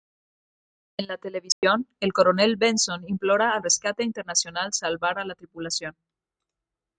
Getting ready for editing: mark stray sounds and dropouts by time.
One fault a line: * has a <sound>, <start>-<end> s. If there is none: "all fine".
* has a dropout, 1.5-1.6 s